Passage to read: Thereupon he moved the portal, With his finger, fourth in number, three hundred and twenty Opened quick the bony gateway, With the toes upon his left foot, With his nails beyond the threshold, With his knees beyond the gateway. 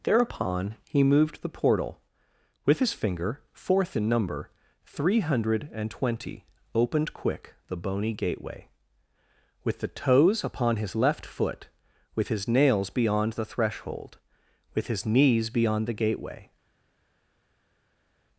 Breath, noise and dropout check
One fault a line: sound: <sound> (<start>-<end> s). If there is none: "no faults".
no faults